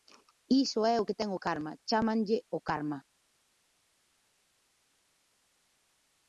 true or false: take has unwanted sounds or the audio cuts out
false